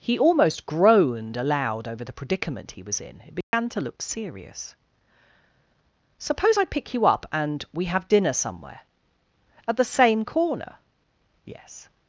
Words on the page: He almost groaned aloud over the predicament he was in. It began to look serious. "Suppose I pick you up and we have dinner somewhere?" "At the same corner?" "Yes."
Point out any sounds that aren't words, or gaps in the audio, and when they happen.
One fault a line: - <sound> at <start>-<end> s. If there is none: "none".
- dropout at 3.4-3.5 s